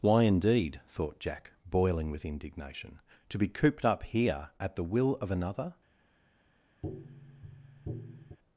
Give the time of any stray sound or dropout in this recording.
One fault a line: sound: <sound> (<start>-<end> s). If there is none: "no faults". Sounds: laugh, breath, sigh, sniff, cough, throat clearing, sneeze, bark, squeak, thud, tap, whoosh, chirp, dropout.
sound: tap (6.8-8.4 s)